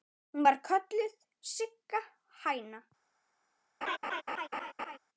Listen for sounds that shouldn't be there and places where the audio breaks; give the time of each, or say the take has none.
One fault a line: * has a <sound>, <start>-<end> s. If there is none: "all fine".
* has a laugh, 3.8-5.0 s